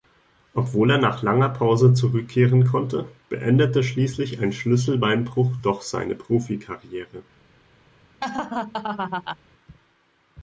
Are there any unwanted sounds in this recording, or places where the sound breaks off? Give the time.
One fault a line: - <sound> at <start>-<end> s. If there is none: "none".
- laugh at 8.2-9.4 s